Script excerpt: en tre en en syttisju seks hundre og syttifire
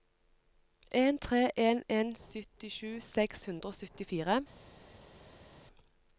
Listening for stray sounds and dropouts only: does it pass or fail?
pass